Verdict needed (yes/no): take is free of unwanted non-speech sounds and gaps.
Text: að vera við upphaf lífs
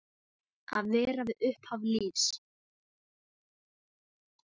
yes